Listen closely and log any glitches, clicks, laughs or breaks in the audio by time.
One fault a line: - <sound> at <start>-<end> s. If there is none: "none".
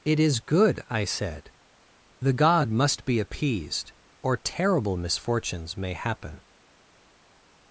none